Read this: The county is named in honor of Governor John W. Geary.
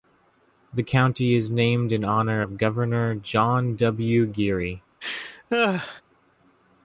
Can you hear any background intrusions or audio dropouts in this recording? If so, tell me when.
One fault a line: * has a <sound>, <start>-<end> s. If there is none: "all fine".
* has a laugh, 5.0-6.0 s